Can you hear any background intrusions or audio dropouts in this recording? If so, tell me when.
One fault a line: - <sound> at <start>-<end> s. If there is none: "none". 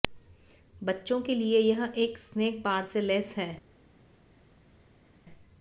none